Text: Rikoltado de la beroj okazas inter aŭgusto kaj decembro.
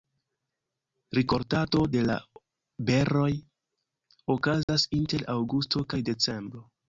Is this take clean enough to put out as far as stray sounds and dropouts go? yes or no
no